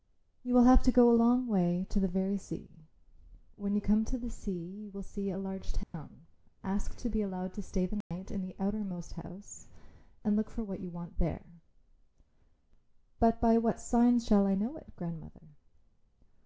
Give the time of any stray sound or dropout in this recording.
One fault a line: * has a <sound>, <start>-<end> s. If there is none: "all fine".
* has a dropout, 5.8-5.9 s
* has a dropout, 8.0-8.1 s